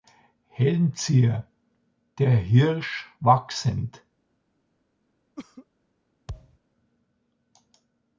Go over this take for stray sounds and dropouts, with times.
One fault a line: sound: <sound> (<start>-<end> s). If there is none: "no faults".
sound: cough (5.4-5.7 s)
sound: thud (6.3-6.6 s)